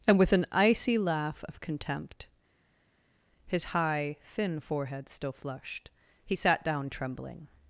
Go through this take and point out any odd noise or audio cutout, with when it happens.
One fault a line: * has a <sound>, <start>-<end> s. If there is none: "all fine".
all fine